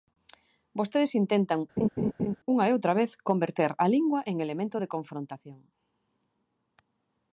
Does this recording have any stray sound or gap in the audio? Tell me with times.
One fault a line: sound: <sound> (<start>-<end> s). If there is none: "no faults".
sound: laugh (1.8-2.4 s)